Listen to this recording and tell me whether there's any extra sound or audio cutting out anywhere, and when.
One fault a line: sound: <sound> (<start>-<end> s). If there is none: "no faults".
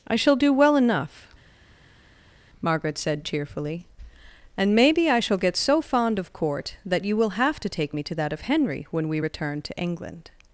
no faults